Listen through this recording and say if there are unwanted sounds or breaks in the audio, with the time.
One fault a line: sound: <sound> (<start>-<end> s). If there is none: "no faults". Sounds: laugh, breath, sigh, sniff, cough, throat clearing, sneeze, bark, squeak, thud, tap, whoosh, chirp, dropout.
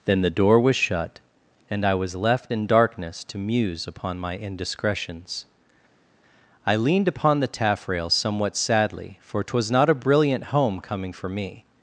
no faults